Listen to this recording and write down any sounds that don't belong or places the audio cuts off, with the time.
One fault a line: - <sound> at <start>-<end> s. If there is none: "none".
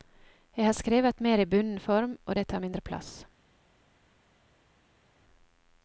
none